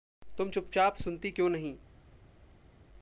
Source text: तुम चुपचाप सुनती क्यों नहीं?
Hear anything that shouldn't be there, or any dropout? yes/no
no